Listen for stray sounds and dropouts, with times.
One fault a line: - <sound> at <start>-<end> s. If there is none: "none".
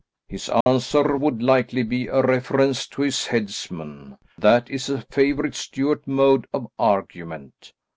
- dropout at 0.6-0.7 s